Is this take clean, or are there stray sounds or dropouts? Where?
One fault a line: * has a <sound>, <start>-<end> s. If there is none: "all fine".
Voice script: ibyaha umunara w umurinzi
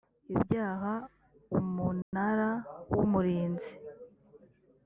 * has a dropout, 2.0-2.1 s